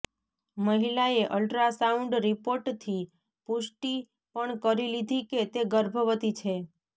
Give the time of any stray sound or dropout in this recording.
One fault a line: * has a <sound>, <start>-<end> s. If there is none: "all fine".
all fine